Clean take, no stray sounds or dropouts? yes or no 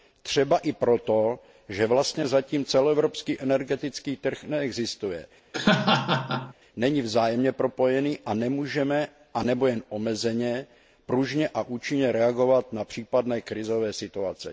no